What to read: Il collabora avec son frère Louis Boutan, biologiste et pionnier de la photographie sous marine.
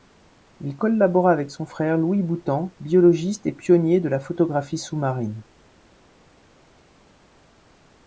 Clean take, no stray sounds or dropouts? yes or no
yes